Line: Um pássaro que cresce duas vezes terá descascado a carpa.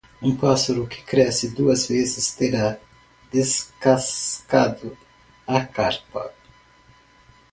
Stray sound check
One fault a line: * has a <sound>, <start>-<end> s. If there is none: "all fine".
all fine